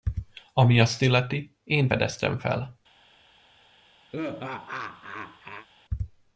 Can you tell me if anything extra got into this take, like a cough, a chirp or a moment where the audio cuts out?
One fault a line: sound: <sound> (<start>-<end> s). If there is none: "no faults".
sound: laugh (4.1-5.7 s)